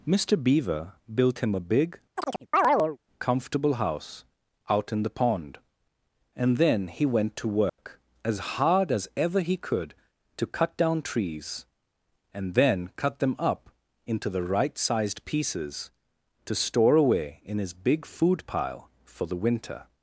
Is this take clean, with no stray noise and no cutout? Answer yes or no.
no